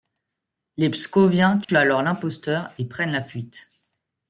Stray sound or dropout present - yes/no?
yes